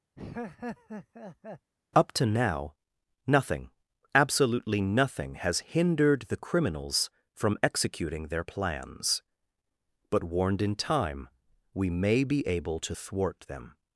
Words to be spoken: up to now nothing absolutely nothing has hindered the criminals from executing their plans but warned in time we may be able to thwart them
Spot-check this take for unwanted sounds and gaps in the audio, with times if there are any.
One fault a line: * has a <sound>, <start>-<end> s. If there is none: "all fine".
* has a laugh, 0.2-1.7 s